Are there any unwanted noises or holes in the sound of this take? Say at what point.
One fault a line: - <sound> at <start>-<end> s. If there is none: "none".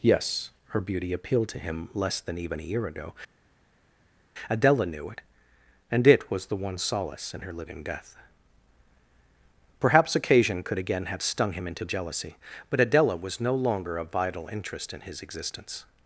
none